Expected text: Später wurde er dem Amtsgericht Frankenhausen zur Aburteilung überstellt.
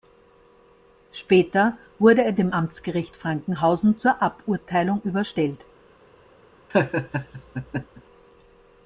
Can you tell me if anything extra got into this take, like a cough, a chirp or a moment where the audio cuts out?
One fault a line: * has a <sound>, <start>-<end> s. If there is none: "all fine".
* has a laugh, 6.7-8.0 s